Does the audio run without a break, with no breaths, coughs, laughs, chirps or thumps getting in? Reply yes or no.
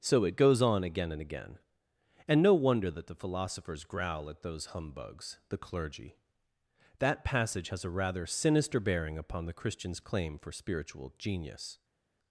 yes